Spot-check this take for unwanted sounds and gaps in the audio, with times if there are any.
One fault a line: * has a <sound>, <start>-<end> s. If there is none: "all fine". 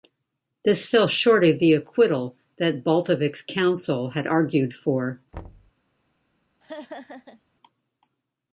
* has a thud, 5.3-5.7 s
* has a laugh, 6.6-7.5 s